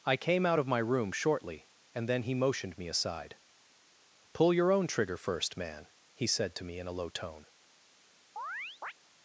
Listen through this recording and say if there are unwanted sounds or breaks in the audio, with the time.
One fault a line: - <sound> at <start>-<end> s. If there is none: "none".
- chirp at 8.4-8.9 s